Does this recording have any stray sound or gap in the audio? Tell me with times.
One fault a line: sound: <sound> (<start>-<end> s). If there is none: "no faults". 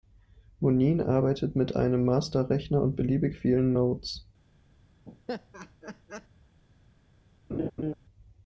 sound: laugh (5.0-6.3 s)
sound: laugh (7.5-7.9 s)